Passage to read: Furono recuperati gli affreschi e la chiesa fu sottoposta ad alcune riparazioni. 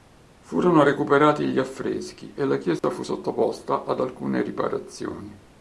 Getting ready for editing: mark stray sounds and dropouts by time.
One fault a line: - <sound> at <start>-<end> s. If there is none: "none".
- dropout at 2.8-2.8 s